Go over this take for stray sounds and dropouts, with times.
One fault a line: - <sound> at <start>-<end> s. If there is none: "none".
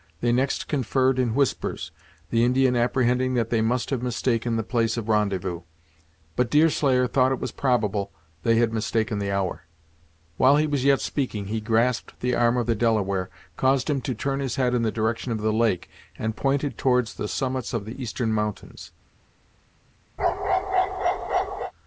- bark at 20.2-21.7 s